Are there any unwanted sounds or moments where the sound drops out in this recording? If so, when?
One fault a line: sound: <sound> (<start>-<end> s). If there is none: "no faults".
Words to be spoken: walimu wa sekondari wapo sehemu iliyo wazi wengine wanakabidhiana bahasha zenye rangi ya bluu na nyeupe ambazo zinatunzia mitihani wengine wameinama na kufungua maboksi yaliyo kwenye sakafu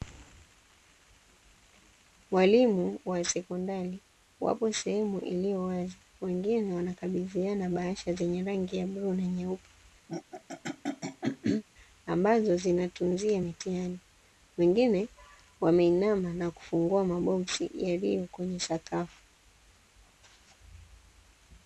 sound: throat clearing (10.1-11.6 s)